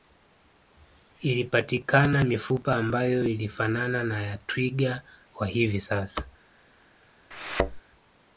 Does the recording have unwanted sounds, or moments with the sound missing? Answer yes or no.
yes